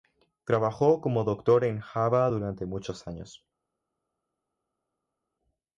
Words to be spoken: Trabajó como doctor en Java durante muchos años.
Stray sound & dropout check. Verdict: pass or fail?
pass